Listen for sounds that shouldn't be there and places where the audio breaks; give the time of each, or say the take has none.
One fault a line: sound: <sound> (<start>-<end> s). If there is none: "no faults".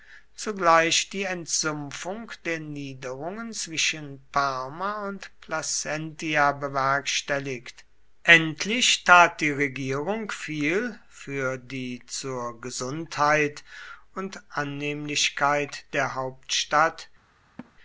sound: laugh (17.6-17.7 s)